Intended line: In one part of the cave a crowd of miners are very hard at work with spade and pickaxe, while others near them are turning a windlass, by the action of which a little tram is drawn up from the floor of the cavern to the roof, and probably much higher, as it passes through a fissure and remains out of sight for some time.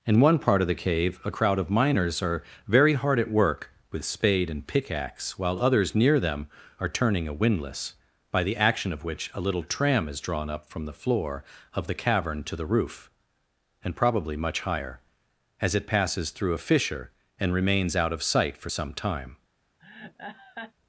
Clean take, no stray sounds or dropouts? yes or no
no